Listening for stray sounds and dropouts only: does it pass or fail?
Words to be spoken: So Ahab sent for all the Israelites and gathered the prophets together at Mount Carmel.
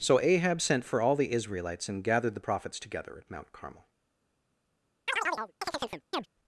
fail